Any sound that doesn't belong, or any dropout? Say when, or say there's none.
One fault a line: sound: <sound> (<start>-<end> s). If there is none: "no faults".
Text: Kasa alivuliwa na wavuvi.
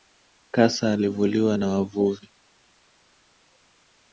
no faults